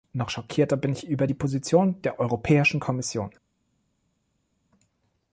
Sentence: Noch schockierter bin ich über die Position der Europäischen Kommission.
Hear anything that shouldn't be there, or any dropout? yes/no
no